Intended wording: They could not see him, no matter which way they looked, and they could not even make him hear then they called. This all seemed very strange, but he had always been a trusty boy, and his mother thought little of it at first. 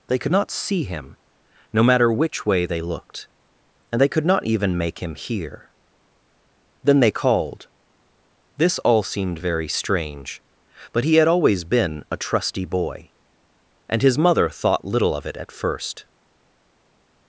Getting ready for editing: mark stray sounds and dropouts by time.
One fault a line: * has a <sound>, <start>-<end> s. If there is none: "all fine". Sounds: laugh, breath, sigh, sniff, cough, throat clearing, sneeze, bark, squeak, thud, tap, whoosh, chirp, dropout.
all fine